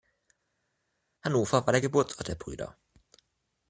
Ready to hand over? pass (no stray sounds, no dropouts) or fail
pass